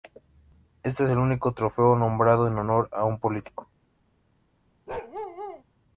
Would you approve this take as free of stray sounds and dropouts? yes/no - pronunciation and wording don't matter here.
no